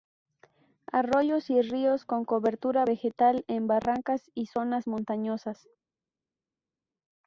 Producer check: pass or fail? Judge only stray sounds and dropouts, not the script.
pass